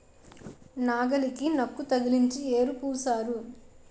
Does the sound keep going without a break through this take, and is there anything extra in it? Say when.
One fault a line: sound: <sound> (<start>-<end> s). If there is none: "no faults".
no faults